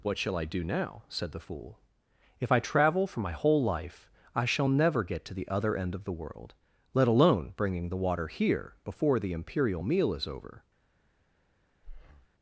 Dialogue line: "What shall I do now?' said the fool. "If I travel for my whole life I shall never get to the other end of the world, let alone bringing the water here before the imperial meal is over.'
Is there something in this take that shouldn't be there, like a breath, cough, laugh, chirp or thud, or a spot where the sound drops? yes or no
yes